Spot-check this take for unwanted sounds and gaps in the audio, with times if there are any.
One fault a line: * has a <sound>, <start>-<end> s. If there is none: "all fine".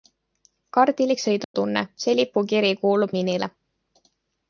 * has a dropout, 1.4-1.5 s